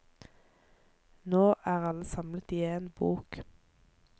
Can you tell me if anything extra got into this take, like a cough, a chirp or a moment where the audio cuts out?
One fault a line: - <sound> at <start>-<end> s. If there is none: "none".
none